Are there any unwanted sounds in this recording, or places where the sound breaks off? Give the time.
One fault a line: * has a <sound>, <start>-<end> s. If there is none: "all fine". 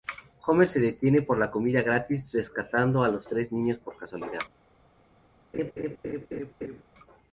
* has a laugh, 5.5-6.8 s